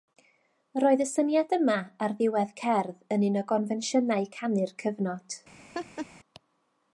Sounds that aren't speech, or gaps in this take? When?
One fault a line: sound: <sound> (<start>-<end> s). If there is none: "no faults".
sound: laugh (5.7-6.1 s)